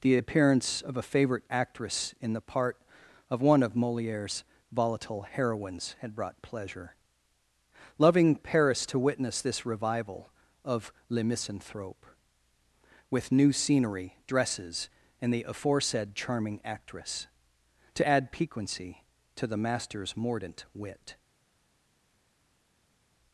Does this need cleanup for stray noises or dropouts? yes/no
no